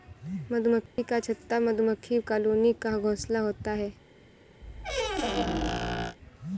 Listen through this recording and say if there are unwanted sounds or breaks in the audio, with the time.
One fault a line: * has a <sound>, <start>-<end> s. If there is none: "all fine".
* has a dropout, 0.9-1.0 s
* has a squeak, 4.6-6.2 s